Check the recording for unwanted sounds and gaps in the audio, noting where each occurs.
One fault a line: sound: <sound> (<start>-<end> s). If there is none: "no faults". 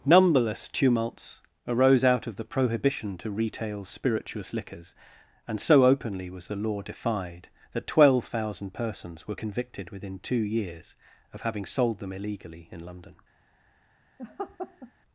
sound: laugh (14.2-14.9 s)